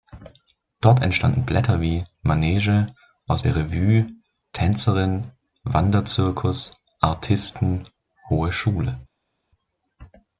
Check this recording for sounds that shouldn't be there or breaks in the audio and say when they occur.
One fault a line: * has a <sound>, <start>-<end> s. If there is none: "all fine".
all fine